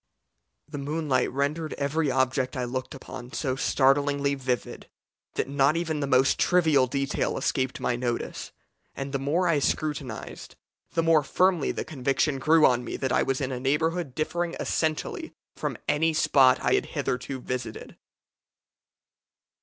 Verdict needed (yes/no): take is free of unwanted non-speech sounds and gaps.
yes